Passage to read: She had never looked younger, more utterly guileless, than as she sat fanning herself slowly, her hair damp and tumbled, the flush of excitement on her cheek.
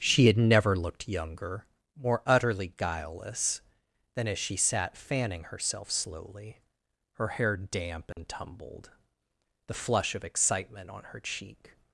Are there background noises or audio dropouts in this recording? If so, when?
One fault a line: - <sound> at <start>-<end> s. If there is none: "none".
- dropout at 8.1-8.2 s